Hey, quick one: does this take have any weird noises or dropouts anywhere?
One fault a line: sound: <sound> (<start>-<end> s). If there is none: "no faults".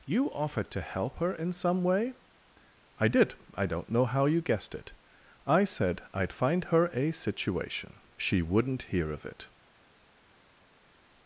no faults